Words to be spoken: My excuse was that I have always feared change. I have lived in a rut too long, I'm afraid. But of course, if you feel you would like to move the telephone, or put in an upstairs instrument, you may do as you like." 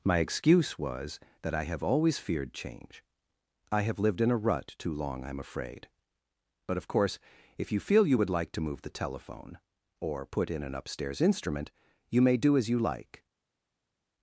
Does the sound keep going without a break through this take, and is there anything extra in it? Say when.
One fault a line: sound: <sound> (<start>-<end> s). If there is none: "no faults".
no faults